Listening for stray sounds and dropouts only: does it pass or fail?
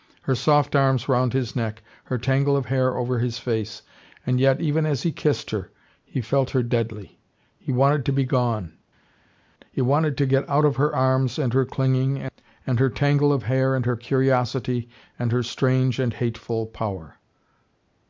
pass